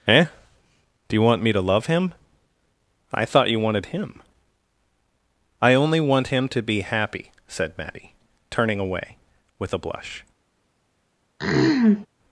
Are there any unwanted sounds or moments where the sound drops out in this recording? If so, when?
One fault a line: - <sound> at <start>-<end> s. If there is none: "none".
- throat clearing at 11.4-12.1 s